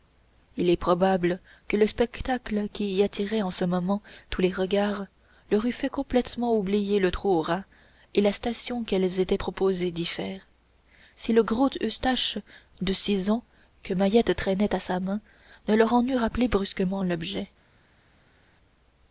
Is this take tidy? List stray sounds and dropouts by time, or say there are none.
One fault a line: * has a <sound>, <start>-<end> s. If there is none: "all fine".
all fine